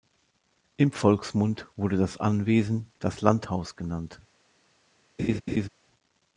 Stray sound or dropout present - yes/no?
yes